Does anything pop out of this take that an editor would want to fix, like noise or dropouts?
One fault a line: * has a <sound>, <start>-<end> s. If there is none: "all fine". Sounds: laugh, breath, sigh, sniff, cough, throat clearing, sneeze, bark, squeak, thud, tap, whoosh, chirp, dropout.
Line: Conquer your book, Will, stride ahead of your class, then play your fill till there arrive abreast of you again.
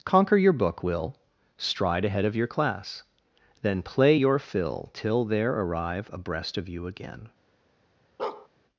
* has a bark, 8.2-8.5 s